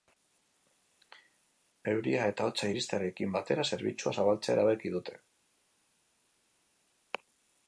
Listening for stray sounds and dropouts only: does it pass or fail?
pass